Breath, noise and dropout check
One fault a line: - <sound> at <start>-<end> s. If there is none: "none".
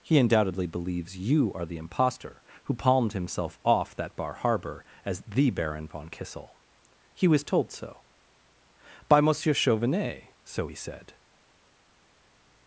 none